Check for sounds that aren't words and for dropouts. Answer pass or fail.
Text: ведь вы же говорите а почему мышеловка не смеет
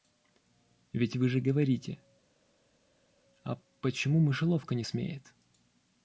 pass